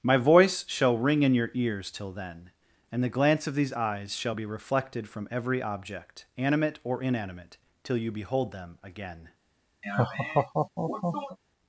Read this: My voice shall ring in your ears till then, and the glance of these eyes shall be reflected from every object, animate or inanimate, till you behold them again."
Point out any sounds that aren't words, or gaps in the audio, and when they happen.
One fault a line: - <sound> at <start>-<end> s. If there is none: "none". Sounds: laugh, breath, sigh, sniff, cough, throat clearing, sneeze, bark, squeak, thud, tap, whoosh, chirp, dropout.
- laugh at 9.8-11.4 s